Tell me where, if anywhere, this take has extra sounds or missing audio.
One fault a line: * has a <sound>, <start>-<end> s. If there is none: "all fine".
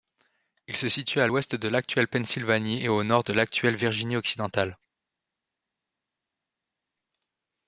all fine